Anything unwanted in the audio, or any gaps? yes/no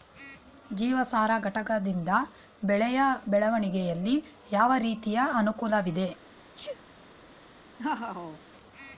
yes